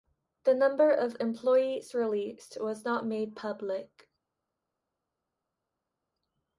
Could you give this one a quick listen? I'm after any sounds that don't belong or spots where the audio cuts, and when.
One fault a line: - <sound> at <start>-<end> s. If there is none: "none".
none